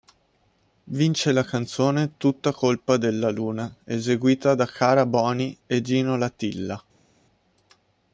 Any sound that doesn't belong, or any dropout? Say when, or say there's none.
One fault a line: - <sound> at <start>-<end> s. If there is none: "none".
none